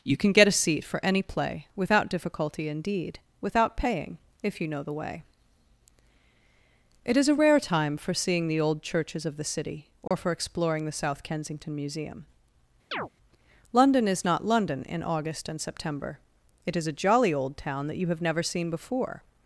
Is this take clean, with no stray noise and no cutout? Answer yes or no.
no